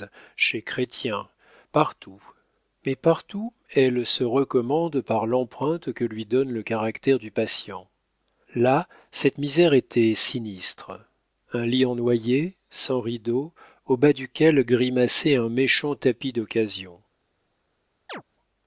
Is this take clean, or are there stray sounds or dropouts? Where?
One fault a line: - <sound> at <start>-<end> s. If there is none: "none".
- chirp at 18.1-18.2 s